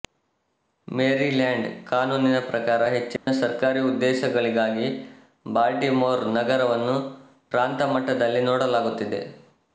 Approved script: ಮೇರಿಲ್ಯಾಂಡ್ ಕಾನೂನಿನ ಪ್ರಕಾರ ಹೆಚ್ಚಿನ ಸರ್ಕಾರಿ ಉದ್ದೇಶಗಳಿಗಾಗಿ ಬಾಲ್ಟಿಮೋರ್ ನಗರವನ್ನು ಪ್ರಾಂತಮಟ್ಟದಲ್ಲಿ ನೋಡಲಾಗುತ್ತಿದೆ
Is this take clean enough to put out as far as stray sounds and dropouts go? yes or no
no